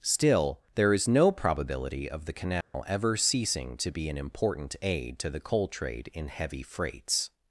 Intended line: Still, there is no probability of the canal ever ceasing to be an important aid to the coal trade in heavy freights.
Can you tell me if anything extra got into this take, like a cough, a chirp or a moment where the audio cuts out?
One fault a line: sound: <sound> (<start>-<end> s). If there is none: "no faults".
sound: dropout (2.6-2.7 s)